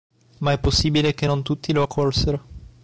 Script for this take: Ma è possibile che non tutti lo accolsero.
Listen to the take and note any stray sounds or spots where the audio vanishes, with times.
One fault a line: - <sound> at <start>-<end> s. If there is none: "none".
none